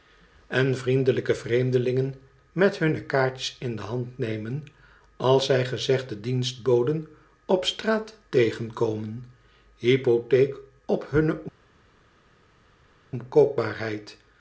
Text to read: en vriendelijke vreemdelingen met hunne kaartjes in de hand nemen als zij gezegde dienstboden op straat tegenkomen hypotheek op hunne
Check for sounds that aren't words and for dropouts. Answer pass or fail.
pass